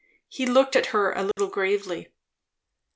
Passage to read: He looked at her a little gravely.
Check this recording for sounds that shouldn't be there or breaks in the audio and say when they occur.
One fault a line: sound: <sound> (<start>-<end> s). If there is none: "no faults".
sound: dropout (1.3-1.4 s)